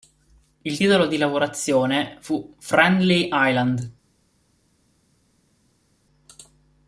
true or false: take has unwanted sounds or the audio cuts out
false